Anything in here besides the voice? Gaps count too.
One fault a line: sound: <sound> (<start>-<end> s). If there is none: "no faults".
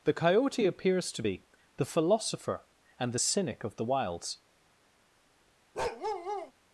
sound: bark (5.7-6.5 s)